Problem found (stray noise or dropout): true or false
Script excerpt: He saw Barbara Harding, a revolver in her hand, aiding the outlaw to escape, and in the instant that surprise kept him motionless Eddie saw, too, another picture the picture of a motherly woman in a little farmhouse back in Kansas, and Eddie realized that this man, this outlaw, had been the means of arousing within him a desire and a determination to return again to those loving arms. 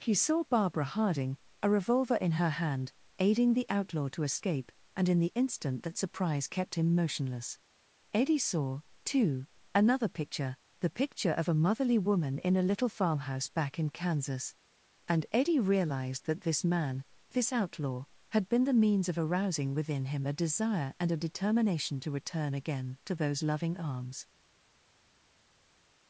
false